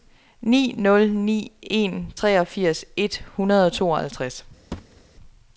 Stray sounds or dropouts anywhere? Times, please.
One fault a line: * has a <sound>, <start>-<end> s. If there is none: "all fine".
* has a thud, 4.7-5.0 s